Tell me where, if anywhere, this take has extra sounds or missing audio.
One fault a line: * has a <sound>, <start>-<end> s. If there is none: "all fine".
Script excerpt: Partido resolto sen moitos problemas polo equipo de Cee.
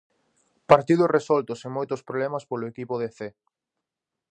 all fine